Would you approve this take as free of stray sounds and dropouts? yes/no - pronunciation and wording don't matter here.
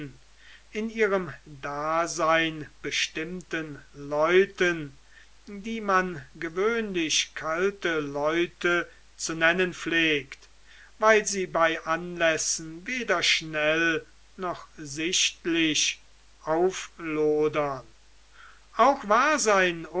yes